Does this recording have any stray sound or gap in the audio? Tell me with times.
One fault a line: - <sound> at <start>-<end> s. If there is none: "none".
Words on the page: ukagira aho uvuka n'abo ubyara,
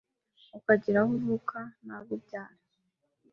none